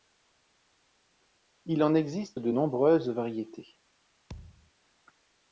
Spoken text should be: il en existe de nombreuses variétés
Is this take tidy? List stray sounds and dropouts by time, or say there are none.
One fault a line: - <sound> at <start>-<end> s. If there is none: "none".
- thud at 4.3-4.7 s